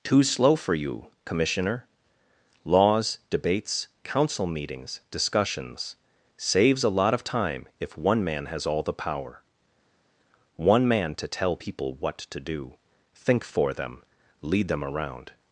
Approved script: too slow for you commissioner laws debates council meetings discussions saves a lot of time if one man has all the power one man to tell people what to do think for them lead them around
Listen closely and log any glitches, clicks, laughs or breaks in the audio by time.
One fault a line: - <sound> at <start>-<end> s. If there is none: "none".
none